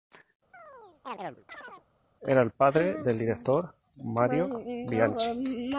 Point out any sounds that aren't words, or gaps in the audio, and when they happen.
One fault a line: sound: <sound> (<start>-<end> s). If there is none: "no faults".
sound: chirp (0.5-1.9 s)